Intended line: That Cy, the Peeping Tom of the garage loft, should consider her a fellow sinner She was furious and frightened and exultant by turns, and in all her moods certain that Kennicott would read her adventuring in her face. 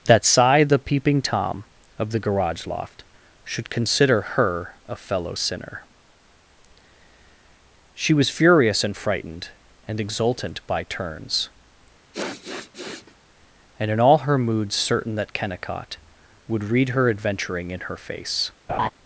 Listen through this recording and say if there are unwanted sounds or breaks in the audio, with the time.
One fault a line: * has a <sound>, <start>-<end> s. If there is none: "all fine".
* has a sniff, 12.1-13.1 s
* has a laugh, 18.7-18.9 s